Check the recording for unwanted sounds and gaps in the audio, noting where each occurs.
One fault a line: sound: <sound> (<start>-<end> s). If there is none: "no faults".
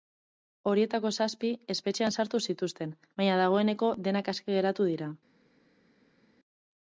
no faults